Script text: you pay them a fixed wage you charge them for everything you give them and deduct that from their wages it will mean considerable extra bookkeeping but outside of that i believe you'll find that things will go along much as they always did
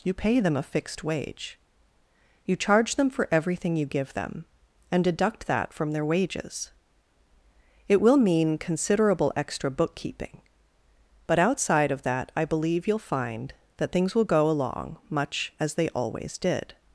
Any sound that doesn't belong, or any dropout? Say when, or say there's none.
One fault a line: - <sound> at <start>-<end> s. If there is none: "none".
none